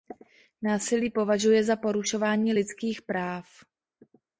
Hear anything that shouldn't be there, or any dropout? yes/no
no